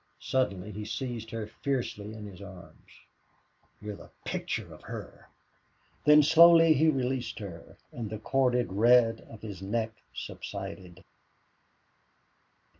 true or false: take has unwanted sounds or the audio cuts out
false